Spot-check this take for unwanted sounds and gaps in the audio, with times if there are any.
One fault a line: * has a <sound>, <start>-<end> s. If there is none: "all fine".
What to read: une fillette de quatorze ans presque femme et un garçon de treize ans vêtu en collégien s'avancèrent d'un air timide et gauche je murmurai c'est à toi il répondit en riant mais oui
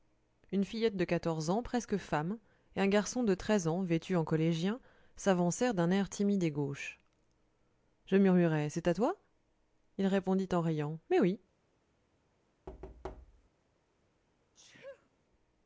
* has a thud, 12.7-13.5 s
* has a sneeze, 14.5-15.1 s